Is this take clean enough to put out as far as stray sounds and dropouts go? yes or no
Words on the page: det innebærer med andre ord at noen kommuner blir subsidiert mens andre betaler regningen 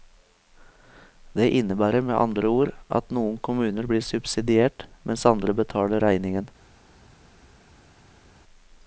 yes